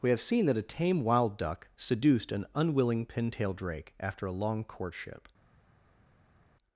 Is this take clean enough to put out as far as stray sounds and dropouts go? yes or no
yes